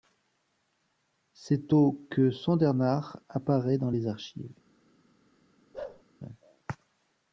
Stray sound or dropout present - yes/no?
yes